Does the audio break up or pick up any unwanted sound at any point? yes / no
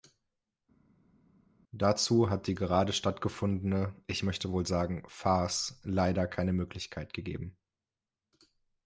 no